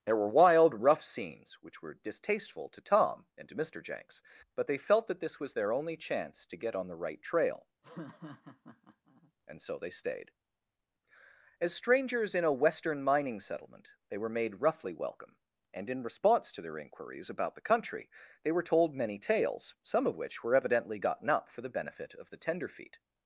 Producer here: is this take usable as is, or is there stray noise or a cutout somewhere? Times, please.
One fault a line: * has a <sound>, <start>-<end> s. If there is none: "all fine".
* has a laugh, 7.8-9.3 s